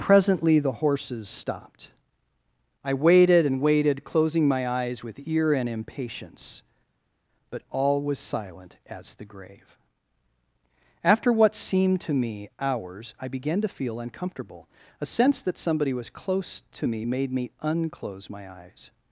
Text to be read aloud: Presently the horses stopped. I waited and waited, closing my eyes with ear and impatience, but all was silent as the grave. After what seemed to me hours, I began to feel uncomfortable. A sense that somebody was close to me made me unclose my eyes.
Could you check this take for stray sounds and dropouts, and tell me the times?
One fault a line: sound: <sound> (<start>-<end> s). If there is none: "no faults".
no faults